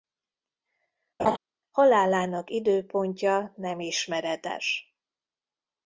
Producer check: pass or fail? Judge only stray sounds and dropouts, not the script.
fail